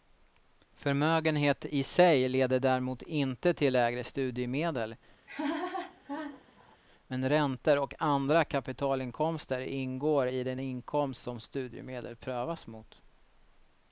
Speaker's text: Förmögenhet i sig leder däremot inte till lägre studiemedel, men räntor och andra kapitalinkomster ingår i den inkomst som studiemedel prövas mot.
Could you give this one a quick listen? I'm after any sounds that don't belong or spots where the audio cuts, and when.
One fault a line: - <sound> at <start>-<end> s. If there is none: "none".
- laugh at 5.3-6.8 s